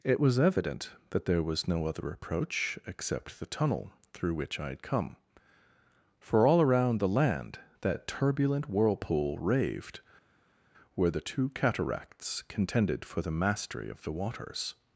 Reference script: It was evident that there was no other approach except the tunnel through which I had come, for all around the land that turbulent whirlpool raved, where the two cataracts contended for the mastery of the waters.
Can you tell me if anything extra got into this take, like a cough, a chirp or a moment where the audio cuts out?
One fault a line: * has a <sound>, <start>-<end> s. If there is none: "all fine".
all fine